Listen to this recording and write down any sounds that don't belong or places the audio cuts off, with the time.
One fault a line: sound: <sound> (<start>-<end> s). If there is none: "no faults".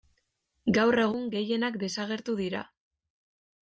no faults